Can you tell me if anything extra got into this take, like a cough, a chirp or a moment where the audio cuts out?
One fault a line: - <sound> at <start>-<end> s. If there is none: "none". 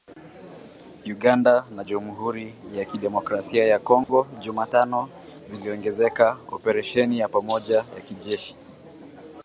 - dropout at 4.0-4.1 s